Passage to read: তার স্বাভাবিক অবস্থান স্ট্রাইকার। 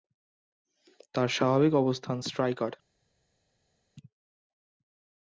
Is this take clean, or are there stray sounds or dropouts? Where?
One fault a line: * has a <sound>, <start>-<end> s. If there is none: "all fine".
all fine